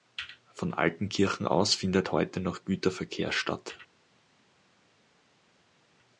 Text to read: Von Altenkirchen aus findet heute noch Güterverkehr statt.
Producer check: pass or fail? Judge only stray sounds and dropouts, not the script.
pass